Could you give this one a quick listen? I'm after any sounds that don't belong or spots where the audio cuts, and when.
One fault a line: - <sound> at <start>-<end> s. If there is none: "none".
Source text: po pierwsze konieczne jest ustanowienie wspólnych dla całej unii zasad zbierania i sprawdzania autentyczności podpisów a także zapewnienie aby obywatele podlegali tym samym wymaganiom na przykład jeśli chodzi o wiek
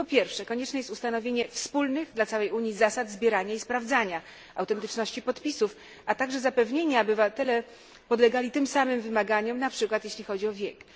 none